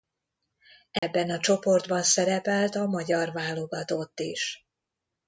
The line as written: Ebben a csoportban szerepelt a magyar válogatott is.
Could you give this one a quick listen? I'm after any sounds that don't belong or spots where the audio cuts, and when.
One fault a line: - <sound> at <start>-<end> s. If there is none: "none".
- dropout at 1.0-1.0 s